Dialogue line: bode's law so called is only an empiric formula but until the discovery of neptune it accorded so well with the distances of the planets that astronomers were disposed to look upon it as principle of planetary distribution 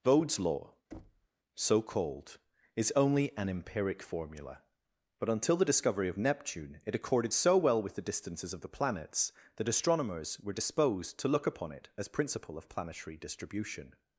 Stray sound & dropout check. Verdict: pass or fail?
fail